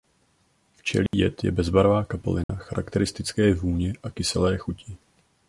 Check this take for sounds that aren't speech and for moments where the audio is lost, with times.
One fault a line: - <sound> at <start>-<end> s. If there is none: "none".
- dropout at 1.1-1.1 s
- dropout at 2.4-2.5 s